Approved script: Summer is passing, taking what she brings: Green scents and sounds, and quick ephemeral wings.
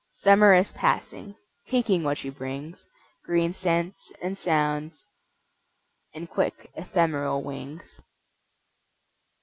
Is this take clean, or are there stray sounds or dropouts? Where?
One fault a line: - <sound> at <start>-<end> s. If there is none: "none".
none